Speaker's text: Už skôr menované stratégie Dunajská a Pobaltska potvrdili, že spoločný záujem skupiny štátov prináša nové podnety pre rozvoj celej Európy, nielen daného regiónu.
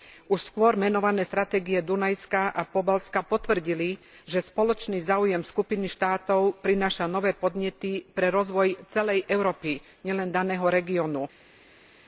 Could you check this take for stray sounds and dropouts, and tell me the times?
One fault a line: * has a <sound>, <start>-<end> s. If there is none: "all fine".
all fine